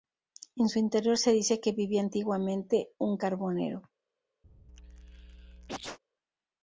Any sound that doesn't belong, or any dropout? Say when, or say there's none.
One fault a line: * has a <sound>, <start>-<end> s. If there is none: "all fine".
* has a sneeze, 4.4-6.0 s